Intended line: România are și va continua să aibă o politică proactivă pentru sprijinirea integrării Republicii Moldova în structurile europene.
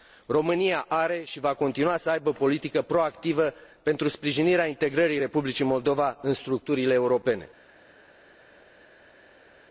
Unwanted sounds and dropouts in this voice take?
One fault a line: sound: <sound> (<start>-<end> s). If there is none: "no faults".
no faults